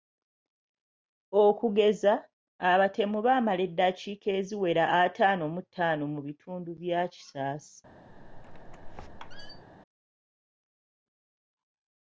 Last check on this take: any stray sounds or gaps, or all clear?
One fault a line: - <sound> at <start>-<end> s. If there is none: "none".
- squeak at 8.1-9.6 s